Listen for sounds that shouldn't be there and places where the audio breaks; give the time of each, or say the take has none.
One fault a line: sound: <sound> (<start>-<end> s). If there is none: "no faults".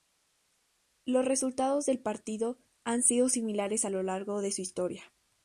no faults